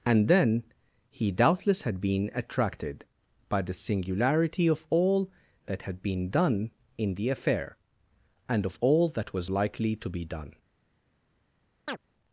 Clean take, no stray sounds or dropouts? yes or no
no